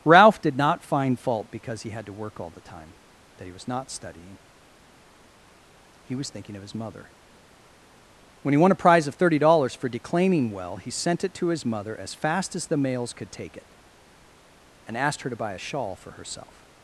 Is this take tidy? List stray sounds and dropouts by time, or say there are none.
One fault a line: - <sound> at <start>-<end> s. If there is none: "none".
none